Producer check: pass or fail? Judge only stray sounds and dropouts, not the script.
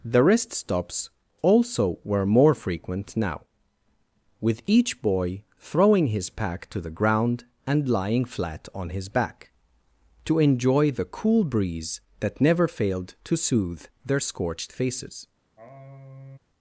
fail